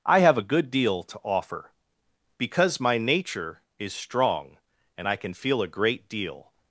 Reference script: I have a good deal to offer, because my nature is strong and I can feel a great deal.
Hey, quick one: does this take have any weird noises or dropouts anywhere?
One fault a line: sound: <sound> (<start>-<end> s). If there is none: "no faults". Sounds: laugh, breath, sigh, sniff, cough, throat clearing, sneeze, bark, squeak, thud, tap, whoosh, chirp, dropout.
no faults